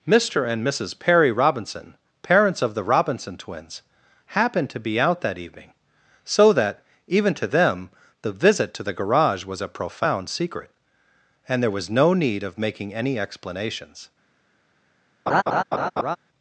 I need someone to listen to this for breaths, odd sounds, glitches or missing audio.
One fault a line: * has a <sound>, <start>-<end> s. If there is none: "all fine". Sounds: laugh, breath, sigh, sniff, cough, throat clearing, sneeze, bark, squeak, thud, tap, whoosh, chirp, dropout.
* has a laugh, 15.3-16.2 s